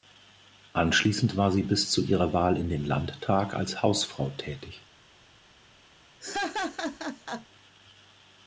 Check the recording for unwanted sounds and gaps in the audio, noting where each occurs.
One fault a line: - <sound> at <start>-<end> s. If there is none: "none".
- laugh at 6.2-7.5 s